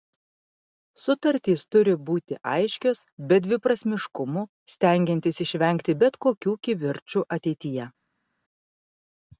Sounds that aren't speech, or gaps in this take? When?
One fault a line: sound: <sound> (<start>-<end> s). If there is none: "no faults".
no faults